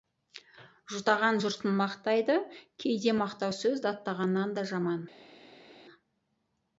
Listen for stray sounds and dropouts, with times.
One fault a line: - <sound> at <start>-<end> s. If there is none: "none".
none